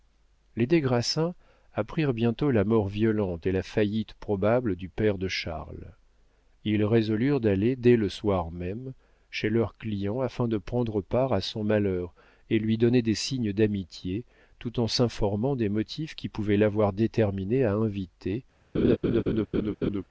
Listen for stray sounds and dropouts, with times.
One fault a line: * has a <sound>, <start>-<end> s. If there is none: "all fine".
* has a laugh, 18.7-20.0 s